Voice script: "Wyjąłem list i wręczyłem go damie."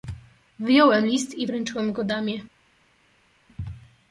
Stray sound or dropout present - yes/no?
no